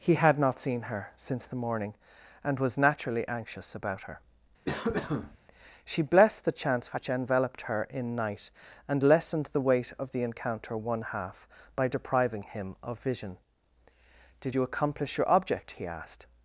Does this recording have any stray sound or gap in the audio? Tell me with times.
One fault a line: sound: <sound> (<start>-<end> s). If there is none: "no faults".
sound: cough (4.7-5.4 s)